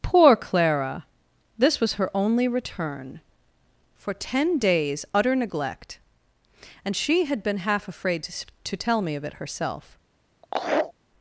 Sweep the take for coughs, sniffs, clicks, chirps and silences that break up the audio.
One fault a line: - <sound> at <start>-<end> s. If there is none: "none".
- laugh at 10.4-10.9 s